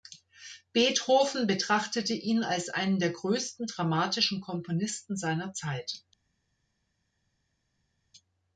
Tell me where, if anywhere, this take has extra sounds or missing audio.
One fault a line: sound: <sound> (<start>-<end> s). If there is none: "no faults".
no faults